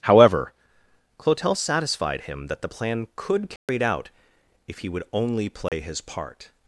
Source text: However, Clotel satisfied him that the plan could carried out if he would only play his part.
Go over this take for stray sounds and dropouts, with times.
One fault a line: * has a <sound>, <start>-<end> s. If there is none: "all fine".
* has a dropout, 3.6-3.7 s
* has a dropout, 5.7-5.7 s